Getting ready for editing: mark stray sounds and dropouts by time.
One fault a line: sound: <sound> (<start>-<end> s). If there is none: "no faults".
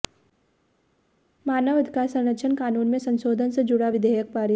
no faults